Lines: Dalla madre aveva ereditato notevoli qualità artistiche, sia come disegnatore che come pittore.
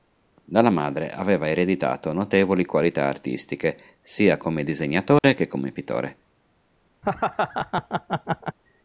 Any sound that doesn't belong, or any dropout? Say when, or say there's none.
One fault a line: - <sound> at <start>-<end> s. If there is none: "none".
- dropout at 5.2-5.2 s
- laugh at 7.0-8.6 s